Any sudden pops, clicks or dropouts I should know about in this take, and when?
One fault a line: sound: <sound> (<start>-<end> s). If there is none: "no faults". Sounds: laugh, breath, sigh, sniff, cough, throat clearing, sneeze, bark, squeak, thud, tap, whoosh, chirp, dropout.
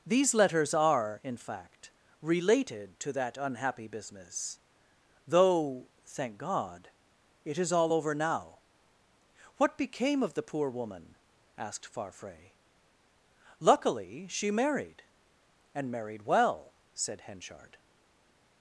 no faults